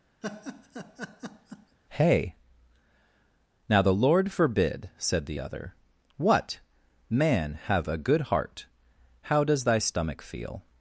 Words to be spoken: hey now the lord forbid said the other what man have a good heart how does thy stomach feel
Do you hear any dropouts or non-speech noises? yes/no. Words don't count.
yes